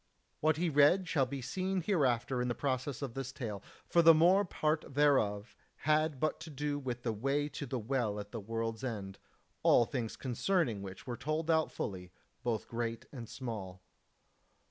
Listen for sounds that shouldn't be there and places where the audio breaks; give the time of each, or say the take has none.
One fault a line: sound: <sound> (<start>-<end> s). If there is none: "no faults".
no faults